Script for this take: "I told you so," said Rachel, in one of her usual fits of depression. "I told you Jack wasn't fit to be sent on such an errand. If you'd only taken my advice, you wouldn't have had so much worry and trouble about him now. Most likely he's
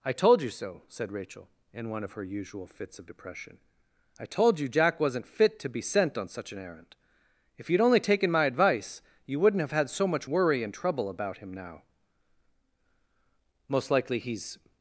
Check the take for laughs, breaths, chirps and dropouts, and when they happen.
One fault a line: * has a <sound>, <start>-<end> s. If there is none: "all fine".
all fine